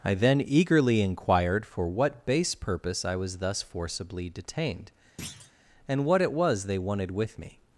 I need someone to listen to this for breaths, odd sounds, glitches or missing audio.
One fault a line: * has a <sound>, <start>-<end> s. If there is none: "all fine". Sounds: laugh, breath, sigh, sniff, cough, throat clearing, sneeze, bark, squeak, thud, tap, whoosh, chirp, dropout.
* has a thud, 5.2-5.5 s